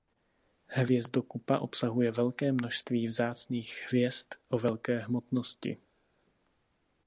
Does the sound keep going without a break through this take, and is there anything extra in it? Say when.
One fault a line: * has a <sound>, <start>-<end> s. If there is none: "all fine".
all fine